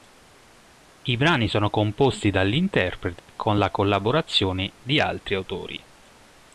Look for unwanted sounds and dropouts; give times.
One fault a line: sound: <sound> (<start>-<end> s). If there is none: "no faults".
sound: dropout (3.2-3.3 s)